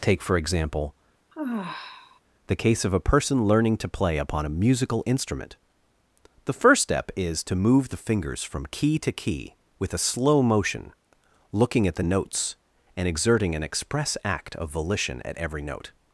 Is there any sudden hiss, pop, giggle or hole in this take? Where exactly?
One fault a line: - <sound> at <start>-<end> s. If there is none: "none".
- sigh at 1.3-2.2 s